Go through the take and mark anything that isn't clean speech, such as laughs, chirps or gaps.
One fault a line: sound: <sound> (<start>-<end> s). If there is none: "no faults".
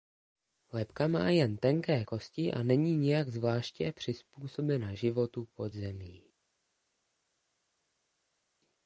no faults